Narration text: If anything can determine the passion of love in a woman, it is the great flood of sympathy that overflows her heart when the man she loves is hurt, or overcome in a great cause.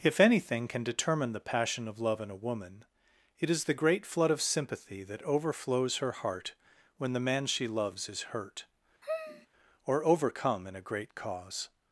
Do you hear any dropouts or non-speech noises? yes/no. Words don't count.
yes